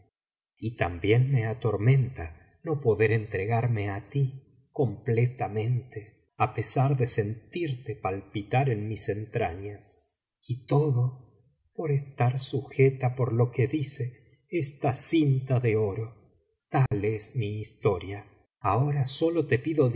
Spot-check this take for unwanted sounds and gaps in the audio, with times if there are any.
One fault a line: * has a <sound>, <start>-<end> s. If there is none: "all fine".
* has a dropout, 16.9-16.9 s